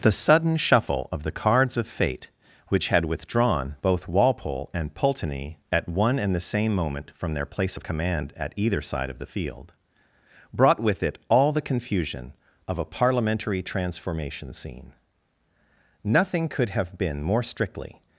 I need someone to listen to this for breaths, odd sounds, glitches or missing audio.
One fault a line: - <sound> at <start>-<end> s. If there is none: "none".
none